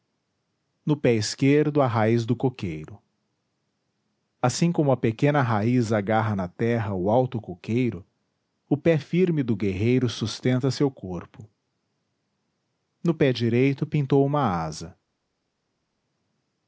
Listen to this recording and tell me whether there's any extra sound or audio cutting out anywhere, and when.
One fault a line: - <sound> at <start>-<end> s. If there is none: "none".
none